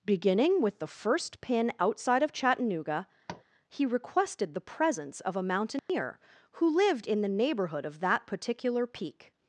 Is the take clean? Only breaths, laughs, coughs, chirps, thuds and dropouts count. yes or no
no